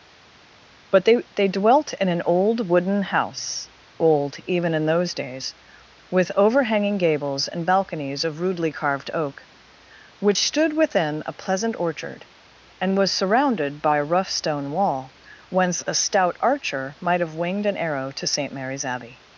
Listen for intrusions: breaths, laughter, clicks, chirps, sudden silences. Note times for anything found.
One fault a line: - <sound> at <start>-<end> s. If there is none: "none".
none